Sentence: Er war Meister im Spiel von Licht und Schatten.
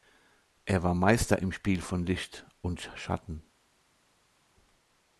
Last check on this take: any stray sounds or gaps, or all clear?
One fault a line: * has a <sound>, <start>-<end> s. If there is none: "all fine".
all fine